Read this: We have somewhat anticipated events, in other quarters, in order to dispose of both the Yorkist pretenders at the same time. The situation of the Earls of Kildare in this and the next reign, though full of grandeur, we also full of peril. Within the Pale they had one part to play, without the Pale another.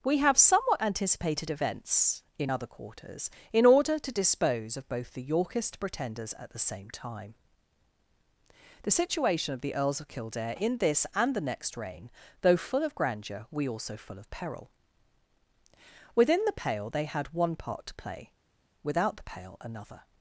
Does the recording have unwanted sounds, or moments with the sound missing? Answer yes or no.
no